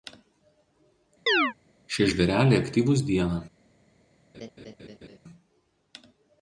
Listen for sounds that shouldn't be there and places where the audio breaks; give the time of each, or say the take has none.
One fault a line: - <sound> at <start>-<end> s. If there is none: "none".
- chirp at 1.3-1.5 s
- laugh at 4.3-5.2 s